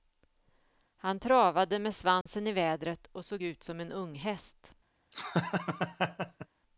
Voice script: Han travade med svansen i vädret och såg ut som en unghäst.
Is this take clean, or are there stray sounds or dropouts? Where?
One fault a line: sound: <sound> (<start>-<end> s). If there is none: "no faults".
sound: dropout (2.2-2.3 s)
sound: laugh (5.1-6.5 s)